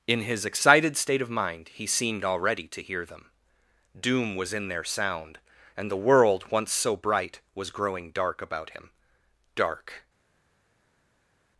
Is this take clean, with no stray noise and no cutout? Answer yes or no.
yes